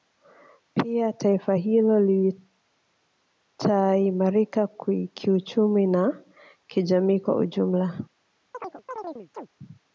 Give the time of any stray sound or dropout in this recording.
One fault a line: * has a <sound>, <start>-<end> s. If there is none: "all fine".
* has a chirp, 8.5-9.5 s